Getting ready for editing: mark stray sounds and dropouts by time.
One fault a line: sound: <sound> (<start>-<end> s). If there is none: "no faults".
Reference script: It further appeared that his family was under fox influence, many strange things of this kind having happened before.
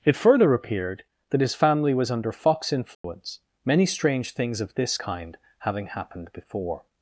sound: dropout (2.9-3.0 s)